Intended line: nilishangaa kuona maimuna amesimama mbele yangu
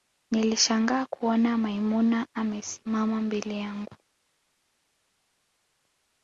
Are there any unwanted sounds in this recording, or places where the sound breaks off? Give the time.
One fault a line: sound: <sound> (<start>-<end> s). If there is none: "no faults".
no faults